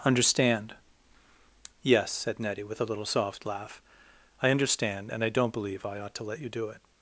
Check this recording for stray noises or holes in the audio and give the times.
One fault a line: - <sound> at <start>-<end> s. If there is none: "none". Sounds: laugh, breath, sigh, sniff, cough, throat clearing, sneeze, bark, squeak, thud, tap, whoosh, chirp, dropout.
none